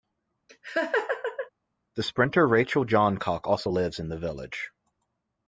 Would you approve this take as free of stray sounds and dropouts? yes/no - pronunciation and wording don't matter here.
no